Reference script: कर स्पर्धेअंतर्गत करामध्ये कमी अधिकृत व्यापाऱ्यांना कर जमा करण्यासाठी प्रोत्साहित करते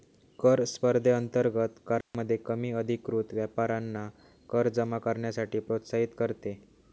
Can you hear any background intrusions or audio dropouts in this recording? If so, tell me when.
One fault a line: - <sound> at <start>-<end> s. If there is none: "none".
- dropout at 2.0-2.1 s